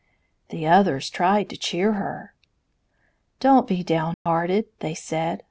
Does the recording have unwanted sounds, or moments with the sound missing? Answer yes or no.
yes